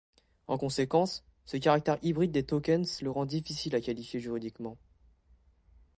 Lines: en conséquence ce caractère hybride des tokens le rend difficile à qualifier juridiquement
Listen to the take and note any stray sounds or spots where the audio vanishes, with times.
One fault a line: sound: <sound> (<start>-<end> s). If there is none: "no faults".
no faults